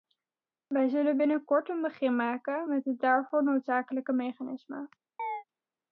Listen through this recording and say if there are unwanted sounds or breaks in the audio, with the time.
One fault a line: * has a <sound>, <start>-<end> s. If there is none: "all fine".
* has a chirp, 5.2-5.4 s